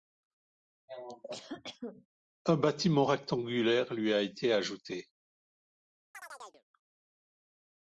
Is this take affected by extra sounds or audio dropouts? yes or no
yes